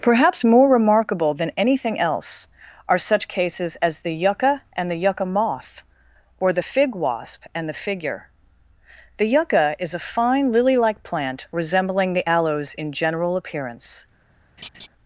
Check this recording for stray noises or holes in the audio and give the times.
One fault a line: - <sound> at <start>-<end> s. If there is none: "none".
- laugh at 14.6-14.9 s